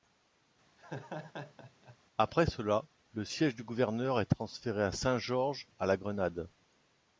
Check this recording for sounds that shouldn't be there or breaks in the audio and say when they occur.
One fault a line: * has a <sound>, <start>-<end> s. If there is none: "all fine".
* has a laugh, 0.8-2.0 s